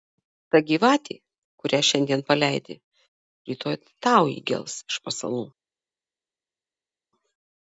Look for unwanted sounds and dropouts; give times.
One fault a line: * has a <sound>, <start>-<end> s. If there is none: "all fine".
all fine